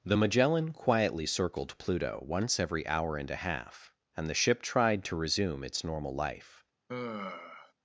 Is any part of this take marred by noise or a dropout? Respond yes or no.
yes